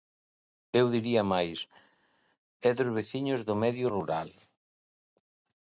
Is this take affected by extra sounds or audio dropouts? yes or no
no